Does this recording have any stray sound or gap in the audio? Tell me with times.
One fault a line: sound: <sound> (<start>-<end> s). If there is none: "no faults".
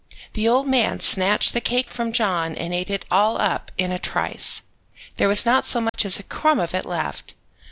sound: dropout (5.9-5.9 s)